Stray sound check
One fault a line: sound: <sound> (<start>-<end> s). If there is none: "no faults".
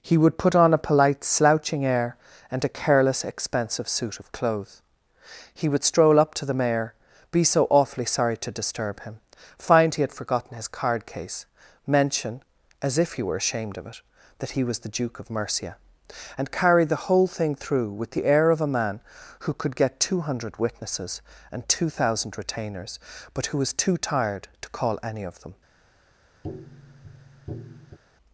sound: tap (26.4-28.0 s)